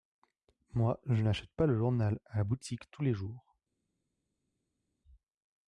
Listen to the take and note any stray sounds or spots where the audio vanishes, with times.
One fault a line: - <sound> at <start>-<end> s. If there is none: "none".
none